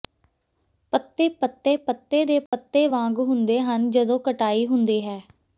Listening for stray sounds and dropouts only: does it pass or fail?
fail